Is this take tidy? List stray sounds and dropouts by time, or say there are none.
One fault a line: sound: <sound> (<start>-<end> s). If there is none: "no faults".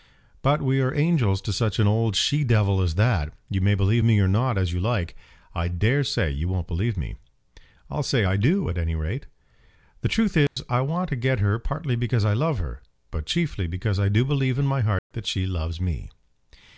sound: dropout (10.5-10.6 s)
sound: dropout (15.0-15.1 s)